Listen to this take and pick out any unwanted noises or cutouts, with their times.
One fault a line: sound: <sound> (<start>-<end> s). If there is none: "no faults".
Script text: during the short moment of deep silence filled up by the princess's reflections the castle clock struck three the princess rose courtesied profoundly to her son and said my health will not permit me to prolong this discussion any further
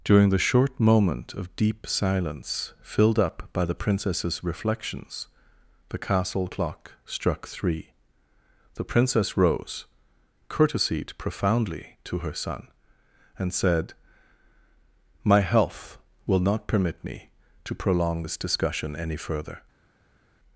no faults